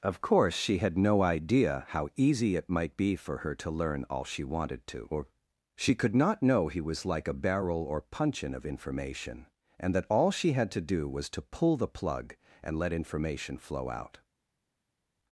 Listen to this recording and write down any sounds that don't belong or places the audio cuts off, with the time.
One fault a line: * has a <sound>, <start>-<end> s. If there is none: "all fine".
all fine